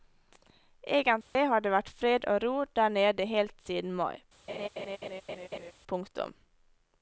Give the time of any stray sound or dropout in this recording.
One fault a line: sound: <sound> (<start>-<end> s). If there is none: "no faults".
sound: dropout (1.2-1.4 s)
sound: laugh (4.5-5.7 s)